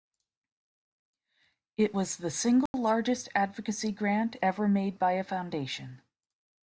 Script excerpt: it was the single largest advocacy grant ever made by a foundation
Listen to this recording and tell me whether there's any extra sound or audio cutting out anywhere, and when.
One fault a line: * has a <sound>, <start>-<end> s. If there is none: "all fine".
* has a dropout, 2.7-2.7 s